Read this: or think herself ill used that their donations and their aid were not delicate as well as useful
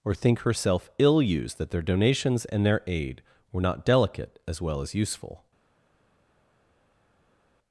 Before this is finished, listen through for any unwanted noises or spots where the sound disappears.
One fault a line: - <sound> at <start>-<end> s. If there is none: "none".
none